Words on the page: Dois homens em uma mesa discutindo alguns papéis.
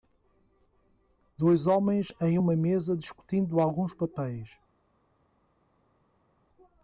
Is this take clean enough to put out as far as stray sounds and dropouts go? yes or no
yes